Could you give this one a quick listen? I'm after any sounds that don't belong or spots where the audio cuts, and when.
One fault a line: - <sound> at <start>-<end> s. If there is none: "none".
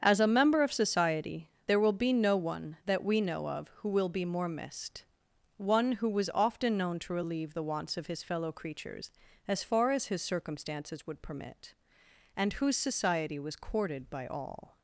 none